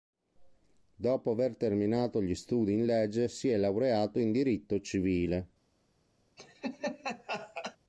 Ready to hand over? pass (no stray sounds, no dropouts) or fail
fail